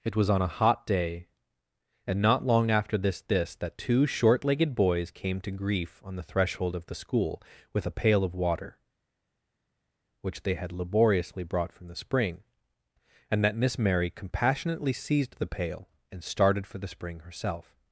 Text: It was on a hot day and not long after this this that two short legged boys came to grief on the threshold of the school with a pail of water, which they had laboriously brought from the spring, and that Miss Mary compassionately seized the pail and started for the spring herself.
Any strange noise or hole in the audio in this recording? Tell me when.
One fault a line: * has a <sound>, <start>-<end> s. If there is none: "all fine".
all fine